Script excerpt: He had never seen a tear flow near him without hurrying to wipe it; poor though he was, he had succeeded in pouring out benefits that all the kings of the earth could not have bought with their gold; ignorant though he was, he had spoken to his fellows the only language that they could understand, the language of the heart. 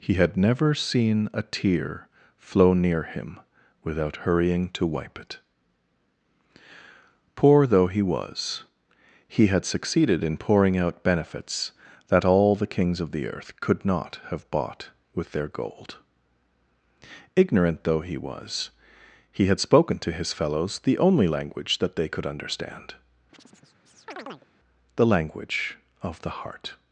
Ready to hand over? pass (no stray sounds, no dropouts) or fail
fail